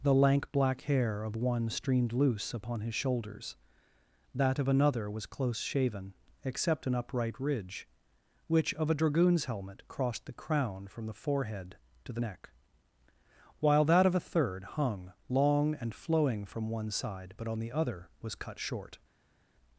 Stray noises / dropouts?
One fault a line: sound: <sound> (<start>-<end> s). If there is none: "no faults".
no faults